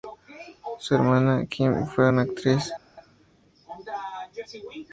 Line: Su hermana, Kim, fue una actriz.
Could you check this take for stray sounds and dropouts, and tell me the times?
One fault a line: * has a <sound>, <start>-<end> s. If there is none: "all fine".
all fine